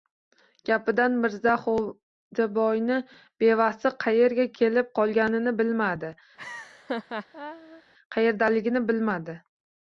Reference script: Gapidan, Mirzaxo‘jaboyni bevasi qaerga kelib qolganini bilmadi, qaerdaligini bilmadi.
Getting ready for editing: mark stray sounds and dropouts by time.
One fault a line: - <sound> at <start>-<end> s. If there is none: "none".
- laugh at 6.4-7.8 s